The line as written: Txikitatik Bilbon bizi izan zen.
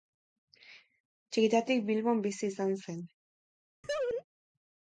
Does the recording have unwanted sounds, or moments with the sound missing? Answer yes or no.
yes